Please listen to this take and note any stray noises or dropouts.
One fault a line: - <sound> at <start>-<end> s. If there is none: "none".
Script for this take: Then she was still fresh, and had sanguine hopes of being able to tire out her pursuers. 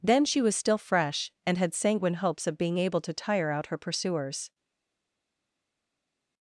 none